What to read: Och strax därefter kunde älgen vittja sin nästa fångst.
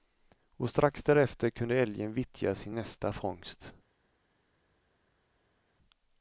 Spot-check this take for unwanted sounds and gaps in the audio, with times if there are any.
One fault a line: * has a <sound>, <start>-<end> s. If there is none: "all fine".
all fine